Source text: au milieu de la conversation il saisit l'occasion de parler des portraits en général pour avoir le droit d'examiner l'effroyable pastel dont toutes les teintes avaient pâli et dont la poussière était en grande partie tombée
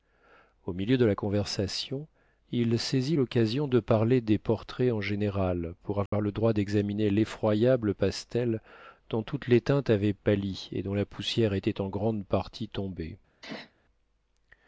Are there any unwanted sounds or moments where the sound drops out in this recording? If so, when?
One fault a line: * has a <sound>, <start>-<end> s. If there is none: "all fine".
* has a dropout, 6.1-6.1 s
* has a sneeze, 13.4-13.7 s